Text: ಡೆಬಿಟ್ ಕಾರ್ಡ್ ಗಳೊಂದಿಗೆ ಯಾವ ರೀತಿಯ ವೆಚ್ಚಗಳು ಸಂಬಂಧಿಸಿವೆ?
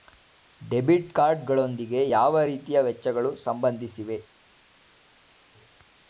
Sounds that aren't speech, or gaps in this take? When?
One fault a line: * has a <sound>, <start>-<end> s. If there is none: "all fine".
all fine